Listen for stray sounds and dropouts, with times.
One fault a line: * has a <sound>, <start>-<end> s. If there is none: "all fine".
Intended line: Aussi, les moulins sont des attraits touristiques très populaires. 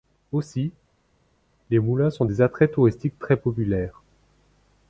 all fine